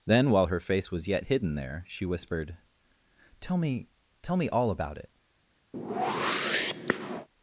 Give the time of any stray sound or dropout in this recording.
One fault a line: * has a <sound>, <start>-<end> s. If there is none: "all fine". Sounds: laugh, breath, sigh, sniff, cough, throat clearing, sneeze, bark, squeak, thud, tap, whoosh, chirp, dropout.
* has a whoosh, 5.7-7.3 s